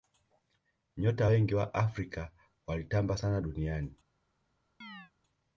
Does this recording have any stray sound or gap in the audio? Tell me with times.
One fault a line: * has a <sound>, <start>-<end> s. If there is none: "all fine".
* has a chirp, 4.8-5.1 s